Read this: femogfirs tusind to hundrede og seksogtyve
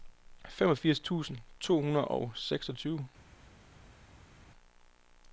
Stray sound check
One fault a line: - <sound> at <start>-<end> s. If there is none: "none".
none